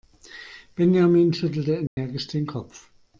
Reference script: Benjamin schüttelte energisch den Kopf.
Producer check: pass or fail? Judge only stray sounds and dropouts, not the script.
fail